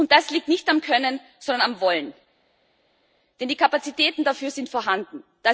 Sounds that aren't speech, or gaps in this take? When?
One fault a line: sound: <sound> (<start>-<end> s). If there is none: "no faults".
no faults